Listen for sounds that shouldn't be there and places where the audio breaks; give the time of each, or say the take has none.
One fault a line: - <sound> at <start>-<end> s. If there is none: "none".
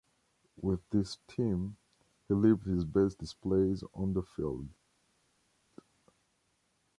none